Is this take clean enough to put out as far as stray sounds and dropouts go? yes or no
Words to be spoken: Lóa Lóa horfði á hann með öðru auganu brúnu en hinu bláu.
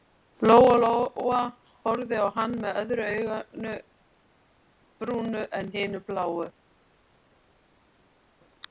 yes